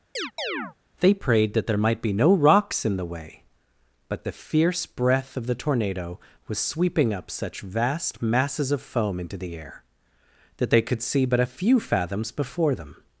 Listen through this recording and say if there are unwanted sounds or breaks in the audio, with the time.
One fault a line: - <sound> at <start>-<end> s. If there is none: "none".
- chirp at 0.2-0.8 s